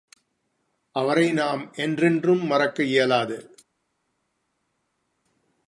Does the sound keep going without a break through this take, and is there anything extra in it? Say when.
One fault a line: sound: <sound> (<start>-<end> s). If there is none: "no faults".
no faults